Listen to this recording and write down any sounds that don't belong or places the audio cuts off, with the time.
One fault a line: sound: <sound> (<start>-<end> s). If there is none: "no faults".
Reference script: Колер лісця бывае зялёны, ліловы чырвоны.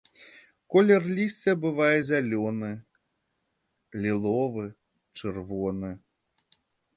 no faults